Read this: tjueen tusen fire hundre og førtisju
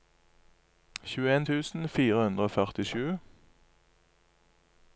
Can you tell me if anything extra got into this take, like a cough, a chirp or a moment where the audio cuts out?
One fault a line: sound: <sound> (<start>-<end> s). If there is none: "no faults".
no faults